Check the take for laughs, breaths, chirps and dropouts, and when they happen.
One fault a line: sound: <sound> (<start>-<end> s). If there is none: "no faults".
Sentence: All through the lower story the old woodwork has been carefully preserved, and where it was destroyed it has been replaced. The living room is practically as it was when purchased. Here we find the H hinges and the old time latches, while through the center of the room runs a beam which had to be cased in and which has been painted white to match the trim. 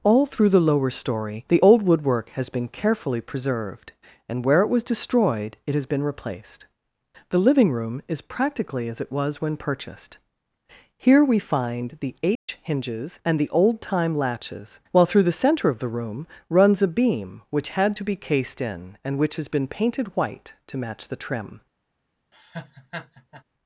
sound: dropout (12.4-12.5 s)
sound: laugh (22.3-23.4 s)